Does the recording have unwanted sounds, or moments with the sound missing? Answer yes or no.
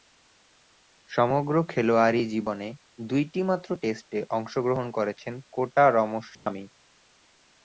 yes